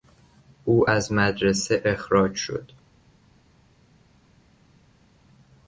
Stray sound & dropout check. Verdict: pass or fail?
pass